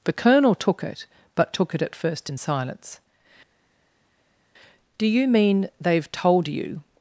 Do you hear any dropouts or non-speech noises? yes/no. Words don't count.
no